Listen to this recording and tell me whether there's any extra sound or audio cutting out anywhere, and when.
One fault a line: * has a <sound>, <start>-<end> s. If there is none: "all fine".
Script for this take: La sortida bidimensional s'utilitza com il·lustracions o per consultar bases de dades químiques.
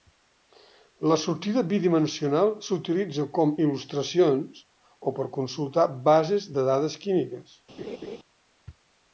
* has a laugh, 7.8-8.2 s